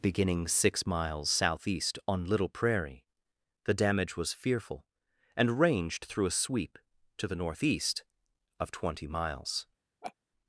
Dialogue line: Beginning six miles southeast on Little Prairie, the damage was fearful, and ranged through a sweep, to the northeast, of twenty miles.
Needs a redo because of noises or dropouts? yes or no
yes